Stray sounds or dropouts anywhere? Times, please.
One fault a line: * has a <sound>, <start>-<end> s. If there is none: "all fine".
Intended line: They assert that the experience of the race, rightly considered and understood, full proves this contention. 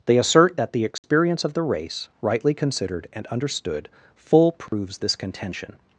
* has a dropout, 1.0-1.0 s
* has a dropout, 4.7-4.7 s